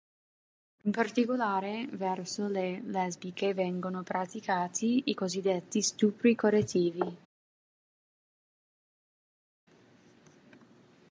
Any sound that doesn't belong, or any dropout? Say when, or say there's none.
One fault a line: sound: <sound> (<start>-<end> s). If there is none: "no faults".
no faults